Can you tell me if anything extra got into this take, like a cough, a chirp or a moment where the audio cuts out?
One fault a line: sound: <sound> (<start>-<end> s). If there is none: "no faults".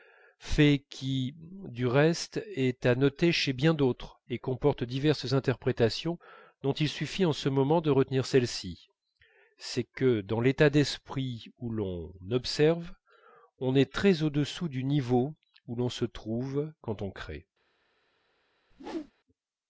sound: whoosh (18.7-19.1 s)